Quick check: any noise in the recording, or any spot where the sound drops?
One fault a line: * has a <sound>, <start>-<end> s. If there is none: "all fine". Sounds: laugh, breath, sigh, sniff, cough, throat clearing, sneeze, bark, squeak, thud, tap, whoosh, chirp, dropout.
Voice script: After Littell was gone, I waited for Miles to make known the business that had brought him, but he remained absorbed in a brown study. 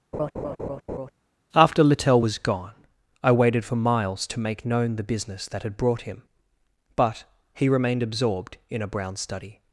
* has a laugh, 0.1-1.1 s